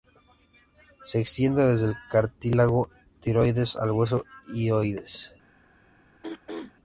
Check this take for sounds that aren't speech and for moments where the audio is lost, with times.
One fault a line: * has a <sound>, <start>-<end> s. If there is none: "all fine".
* has a throat clearing, 6.2-6.7 s